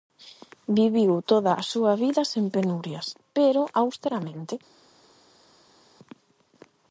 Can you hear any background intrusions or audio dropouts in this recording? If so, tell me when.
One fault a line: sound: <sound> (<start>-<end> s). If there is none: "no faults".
no faults